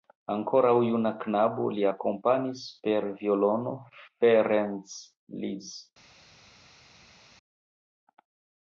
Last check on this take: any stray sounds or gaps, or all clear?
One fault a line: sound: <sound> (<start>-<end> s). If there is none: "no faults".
no faults